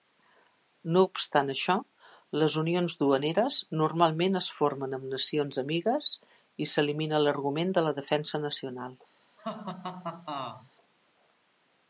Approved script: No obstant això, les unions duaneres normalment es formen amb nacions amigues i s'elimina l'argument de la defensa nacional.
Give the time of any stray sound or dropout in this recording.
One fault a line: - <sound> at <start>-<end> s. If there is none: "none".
- laugh at 9.4-10.7 s